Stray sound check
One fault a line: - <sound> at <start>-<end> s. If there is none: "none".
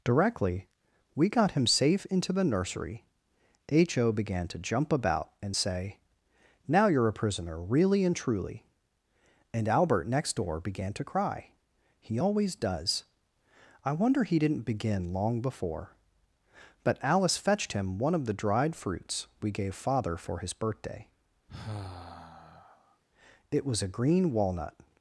- sigh at 21.5-23.0 s